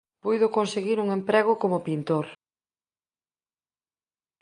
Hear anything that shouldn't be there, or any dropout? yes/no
no